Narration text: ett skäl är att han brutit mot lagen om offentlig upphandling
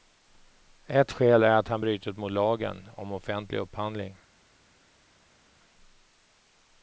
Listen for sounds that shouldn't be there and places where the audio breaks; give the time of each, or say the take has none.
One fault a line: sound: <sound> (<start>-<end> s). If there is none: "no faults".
no faults